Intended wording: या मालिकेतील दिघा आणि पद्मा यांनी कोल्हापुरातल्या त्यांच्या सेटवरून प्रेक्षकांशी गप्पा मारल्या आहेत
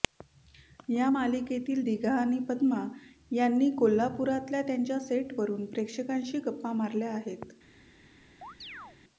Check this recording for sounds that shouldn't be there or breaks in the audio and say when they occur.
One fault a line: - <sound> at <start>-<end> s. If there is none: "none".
- chirp at 8.4-9.0 s